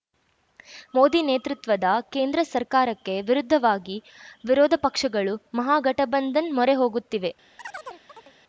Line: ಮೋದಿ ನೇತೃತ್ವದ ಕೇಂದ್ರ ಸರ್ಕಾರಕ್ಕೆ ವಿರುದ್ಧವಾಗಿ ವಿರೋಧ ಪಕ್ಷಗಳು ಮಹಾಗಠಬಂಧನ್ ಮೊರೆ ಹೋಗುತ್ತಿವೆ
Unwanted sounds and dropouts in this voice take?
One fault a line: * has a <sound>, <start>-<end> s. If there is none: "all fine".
* has a chirp, 7.6-8.3 s